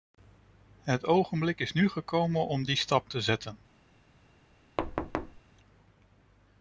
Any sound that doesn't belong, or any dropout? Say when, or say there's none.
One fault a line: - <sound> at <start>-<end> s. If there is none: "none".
- thud at 4.8-5.4 s